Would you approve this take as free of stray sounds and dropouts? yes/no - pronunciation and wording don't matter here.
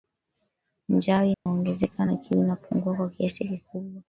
no